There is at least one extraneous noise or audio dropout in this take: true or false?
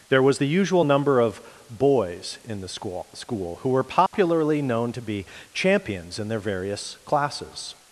true